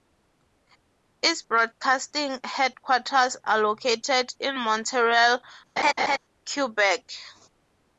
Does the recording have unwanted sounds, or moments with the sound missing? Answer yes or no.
yes